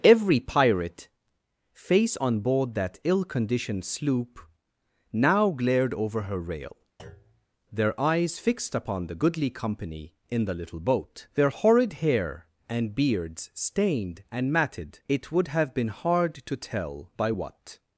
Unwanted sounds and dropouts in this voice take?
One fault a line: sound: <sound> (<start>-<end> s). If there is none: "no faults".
sound: thud (7.0-7.5 s)